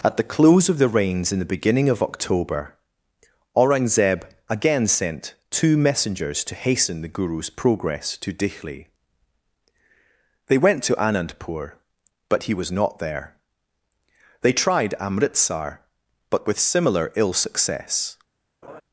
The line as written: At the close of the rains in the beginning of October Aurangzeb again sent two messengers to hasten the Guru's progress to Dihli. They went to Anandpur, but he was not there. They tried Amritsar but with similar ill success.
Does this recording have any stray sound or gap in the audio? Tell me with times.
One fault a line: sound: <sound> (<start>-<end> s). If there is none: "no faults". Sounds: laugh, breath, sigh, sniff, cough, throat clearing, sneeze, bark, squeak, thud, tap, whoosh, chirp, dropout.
sound: laugh (18.6-18.8 s)